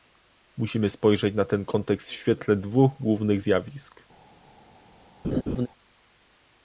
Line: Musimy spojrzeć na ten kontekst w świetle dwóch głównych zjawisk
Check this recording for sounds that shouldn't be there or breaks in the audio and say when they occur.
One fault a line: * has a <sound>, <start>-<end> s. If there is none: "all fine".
* has a laugh, 5.2-5.7 s